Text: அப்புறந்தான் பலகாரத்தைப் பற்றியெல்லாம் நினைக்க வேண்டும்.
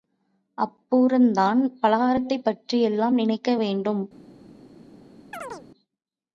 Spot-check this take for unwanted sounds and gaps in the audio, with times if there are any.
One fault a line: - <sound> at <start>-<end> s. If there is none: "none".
- chirp at 5.3-5.7 s